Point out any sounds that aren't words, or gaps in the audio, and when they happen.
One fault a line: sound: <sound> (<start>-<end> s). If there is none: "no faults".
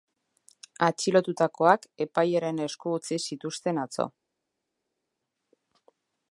no faults